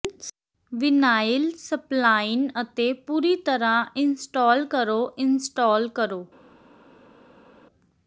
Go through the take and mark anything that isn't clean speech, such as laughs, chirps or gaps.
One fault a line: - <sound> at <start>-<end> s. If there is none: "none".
none